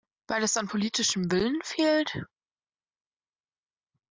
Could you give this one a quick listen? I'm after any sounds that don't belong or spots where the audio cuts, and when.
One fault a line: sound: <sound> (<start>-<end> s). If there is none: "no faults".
no faults